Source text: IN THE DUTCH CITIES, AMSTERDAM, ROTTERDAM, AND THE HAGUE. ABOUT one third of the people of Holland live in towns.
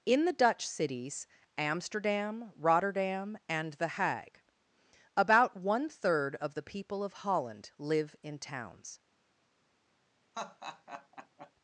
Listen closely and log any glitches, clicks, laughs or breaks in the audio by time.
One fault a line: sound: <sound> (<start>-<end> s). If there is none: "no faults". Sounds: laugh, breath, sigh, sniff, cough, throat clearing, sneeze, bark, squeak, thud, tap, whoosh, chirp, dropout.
sound: laugh (10.3-11.5 s)